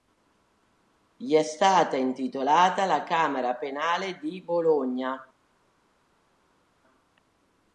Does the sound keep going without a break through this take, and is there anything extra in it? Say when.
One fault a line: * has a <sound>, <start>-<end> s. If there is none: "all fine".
all fine